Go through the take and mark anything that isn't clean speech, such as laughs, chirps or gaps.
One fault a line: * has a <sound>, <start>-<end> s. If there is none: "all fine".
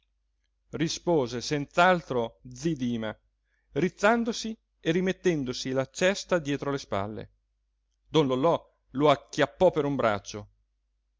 all fine